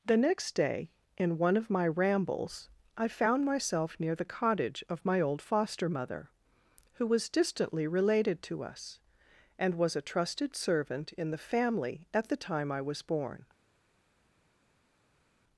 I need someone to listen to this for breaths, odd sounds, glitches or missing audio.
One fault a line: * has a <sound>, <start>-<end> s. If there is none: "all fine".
all fine